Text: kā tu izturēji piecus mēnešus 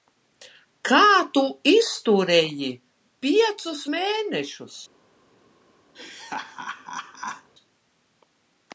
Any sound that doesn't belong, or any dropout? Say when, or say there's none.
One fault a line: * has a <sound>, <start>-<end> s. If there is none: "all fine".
* has a laugh, 5.9-7.5 s